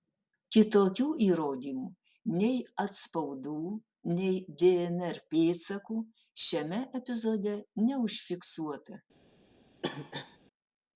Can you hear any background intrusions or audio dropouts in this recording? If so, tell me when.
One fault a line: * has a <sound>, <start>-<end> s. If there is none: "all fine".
* has a cough, 9.8-10.4 s